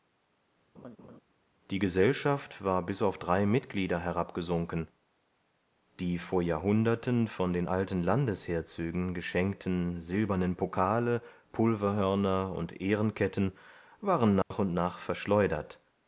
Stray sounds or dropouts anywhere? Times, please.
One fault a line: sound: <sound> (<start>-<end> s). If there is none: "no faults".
sound: laugh (0.7-1.2 s)
sound: dropout (14.4-14.5 s)